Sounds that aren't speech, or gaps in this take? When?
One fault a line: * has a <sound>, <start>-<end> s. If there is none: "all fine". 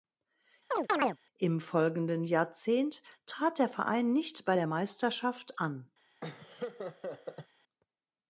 * has a chirp, 0.7-1.2 s
* has a laugh, 6.2-7.5 s